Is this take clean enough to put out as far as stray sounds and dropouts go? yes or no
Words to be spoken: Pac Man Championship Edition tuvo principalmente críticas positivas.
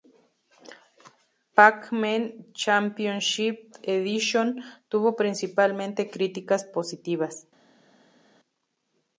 yes